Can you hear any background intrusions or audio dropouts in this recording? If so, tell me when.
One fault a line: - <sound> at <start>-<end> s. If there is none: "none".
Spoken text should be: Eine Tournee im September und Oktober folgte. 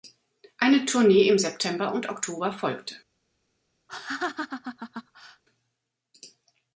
- laugh at 3.9-5.4 s